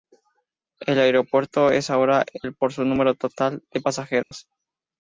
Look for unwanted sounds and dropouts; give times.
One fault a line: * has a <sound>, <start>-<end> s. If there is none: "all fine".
* has a dropout, 4.2-4.3 s